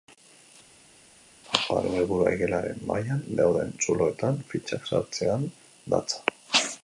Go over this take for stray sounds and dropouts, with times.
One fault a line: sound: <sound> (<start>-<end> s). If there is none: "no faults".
no faults